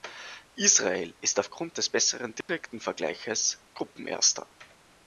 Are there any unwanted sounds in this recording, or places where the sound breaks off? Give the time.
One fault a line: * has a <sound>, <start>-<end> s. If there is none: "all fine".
* has a dropout, 2.4-2.5 s